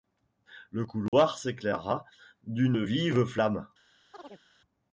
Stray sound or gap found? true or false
true